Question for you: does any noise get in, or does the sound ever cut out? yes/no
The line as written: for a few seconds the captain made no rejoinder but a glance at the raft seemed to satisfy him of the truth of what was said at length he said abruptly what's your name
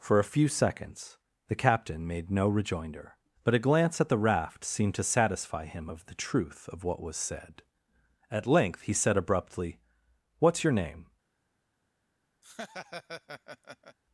yes